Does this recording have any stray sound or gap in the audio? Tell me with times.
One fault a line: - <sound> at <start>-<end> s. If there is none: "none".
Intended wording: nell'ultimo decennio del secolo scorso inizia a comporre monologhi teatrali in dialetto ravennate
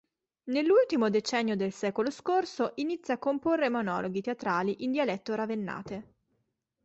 none